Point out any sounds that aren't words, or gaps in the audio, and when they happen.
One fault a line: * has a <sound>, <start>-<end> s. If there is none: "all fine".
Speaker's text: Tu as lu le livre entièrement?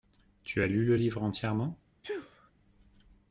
* has a sneeze, 2.0-2.5 s